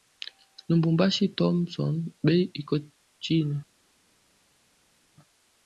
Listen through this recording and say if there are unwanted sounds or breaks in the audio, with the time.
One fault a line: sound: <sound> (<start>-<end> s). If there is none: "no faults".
no faults